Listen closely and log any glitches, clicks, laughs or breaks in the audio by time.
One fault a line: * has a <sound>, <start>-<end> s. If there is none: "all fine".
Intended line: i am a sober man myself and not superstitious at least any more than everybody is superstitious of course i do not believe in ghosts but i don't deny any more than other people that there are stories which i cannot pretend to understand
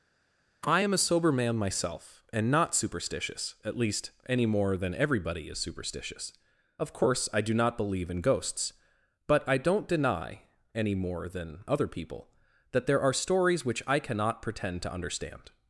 all fine